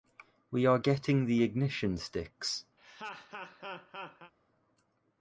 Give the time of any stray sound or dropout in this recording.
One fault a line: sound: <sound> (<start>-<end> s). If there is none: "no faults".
sound: laugh (2.8-4.3 s)